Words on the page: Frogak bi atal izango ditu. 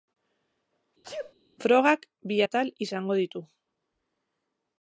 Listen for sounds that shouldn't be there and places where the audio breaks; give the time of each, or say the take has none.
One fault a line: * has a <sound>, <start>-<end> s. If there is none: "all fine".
* has a sneeze, 1.0-1.3 s